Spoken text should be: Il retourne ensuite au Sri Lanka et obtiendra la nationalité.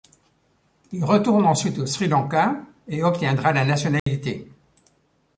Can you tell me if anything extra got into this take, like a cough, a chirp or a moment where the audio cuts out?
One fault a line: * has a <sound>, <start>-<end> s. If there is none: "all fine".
* has a dropout, 4.0-4.1 s